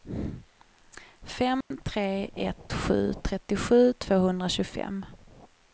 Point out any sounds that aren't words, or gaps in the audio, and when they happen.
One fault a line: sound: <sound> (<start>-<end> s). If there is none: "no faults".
sound: dropout (1.6-1.7 s)